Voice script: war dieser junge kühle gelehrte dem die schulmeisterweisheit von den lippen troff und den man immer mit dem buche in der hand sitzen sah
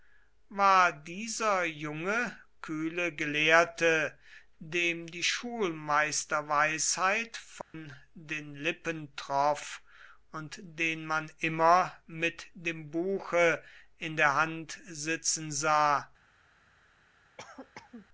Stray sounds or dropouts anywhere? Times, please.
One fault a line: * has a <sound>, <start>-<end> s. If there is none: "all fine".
* has a dropout, 7.6-7.7 s
* has a cough, 17.4-18.1 s